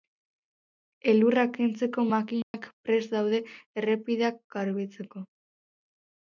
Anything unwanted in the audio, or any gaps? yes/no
yes